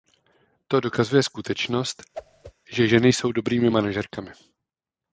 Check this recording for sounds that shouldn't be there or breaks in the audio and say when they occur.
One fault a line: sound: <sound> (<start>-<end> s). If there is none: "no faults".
sound: whoosh (2.1-2.5 s)